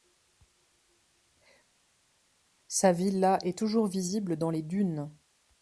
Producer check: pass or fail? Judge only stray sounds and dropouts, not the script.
pass